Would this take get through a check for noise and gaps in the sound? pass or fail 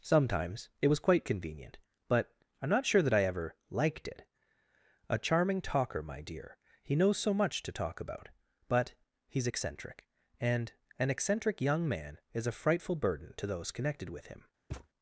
fail